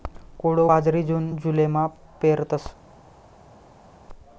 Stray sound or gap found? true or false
false